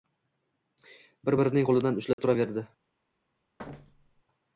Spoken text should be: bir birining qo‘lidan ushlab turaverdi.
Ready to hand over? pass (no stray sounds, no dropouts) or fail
fail